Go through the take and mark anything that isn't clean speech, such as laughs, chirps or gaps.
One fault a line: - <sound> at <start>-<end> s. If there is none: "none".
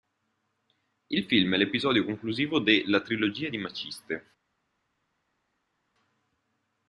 none